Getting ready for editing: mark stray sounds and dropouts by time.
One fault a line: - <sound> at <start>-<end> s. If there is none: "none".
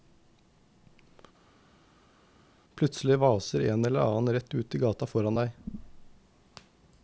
none